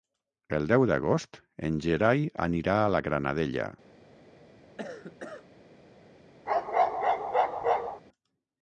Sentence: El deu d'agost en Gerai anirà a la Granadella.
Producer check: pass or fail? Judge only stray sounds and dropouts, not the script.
fail